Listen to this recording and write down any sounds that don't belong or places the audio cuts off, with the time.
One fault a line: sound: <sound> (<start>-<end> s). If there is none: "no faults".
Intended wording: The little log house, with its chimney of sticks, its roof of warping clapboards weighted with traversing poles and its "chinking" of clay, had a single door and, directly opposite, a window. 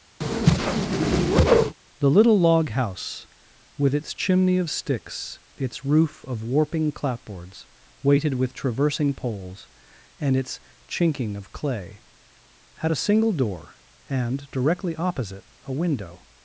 sound: whoosh (0.2-1.8 s)